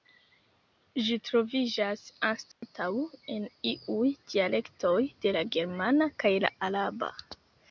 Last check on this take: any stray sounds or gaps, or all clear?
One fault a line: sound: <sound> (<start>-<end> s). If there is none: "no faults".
sound: dropout (2.5-2.6 s)